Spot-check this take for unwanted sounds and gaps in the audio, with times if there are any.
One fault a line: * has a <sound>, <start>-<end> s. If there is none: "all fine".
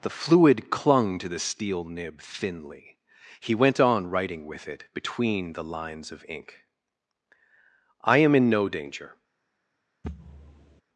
* has a thud, 10.0-10.8 s